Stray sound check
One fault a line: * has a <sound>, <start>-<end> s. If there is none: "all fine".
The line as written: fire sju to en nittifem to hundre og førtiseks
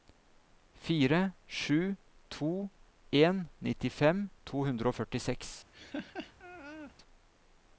* has a laugh, 5.7-6.9 s